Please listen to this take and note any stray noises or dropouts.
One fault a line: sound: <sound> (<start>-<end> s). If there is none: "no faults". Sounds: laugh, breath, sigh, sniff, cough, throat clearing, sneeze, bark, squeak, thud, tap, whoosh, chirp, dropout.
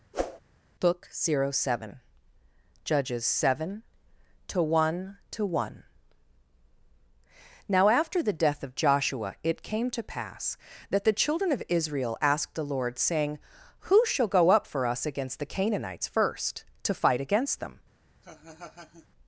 sound: whoosh (0.1-0.4 s)
sound: laugh (18.2-19.1 s)